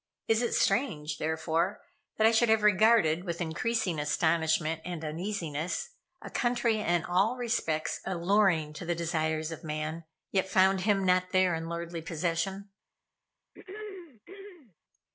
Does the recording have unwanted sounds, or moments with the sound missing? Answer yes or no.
yes